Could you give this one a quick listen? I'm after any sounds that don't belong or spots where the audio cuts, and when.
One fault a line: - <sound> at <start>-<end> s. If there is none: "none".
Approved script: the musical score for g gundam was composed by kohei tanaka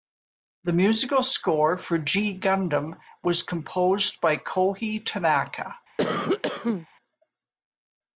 - cough at 6.0-6.9 s